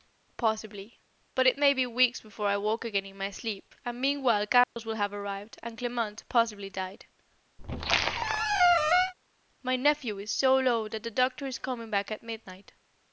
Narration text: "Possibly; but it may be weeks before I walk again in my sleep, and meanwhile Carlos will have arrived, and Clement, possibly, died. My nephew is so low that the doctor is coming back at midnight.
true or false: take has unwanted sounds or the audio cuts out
true